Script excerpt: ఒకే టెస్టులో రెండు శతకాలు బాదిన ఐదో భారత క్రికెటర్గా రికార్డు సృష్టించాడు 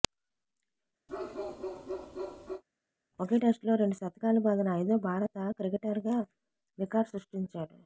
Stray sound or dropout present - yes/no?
yes